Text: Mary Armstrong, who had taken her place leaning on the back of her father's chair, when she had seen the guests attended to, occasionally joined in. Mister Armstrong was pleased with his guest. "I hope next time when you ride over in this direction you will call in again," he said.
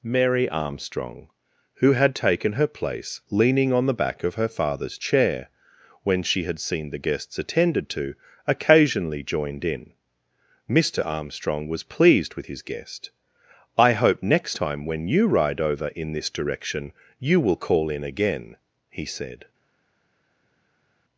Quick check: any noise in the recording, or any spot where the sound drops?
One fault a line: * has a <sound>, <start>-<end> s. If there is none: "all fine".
all fine